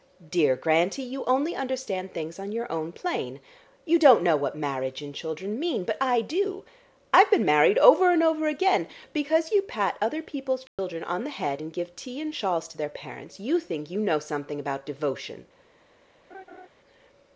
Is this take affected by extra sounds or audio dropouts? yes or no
yes